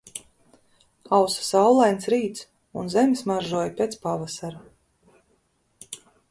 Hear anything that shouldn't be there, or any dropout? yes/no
no